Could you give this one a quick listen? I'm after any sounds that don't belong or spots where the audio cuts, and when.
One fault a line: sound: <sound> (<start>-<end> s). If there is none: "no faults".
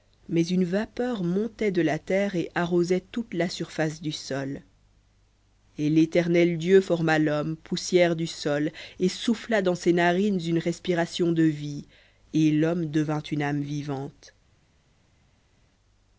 no faults